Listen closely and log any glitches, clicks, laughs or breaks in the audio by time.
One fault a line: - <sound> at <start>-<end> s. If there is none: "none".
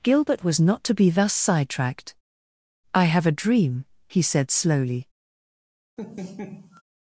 - laugh at 6.0-6.8 s